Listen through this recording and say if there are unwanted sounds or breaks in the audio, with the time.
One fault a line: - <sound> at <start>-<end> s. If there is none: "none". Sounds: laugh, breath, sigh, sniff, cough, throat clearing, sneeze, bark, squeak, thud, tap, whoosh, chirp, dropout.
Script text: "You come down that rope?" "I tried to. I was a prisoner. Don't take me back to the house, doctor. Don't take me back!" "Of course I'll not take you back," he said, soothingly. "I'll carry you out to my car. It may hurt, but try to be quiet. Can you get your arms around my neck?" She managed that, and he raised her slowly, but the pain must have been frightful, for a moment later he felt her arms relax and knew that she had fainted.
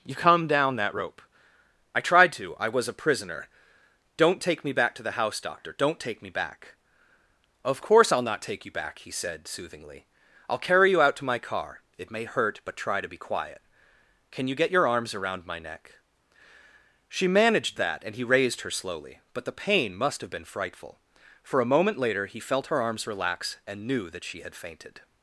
none